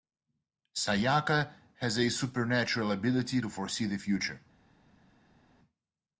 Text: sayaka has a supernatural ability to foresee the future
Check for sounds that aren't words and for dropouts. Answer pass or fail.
pass